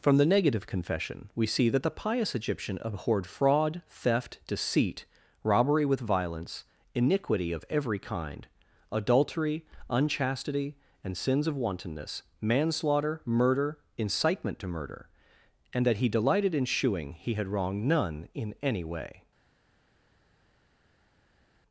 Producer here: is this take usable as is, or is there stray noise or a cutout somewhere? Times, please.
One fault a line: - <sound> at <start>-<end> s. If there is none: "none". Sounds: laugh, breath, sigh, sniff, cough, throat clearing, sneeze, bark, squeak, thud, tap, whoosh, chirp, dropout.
none